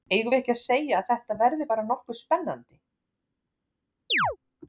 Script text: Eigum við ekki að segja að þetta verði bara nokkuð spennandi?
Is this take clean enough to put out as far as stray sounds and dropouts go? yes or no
no